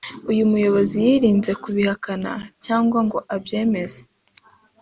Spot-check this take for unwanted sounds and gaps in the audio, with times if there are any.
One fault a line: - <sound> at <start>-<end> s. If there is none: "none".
none